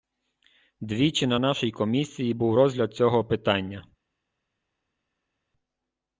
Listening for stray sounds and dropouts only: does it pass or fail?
pass